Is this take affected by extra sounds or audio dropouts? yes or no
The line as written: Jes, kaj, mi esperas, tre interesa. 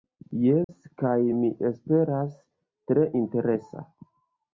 yes